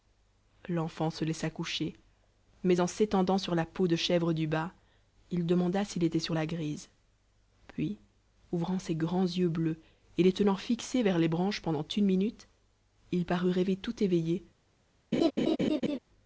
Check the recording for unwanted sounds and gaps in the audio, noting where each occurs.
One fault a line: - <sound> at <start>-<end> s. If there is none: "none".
- laugh at 15.1-16.0 s